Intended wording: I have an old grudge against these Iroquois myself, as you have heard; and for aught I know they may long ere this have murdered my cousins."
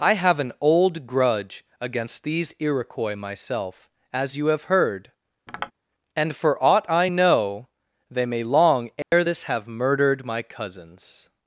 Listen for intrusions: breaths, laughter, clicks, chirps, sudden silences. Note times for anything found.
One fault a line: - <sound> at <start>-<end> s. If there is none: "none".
- tap at 5.5-5.7 s
- dropout at 9.0-9.1 s